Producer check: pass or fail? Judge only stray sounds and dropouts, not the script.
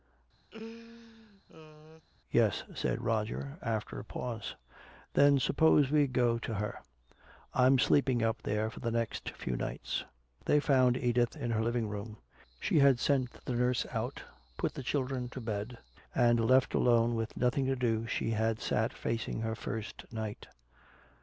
fail